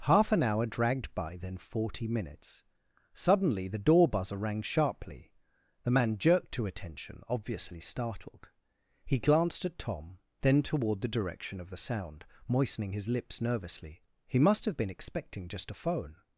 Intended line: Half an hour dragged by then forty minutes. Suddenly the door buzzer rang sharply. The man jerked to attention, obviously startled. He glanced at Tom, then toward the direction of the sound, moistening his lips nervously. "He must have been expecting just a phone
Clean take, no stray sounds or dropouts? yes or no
yes